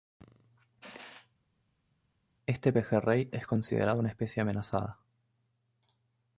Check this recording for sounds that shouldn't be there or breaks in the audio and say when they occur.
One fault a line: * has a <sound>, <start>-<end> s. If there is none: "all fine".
all fine